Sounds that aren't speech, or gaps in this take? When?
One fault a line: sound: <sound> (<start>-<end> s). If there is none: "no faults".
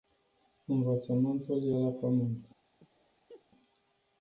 sound: laugh (2.8-3.5 s)